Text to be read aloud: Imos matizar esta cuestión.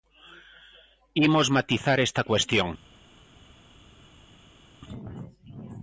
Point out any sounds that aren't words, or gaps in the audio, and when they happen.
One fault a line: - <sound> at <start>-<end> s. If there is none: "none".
none